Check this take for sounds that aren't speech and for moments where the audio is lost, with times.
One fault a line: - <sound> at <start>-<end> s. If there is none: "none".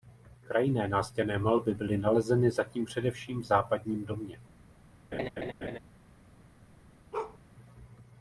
- laugh at 5.1-5.8 s
- bark at 7.1-7.4 s